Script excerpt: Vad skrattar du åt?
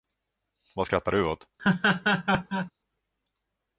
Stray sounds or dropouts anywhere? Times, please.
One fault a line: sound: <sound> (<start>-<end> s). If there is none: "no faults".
sound: laugh (1.6-2.7 s)